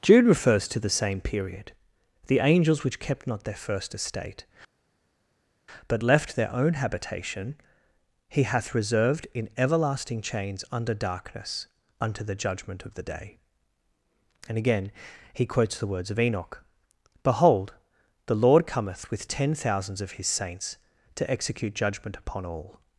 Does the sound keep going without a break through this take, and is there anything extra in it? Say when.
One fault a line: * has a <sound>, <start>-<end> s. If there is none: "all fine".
all fine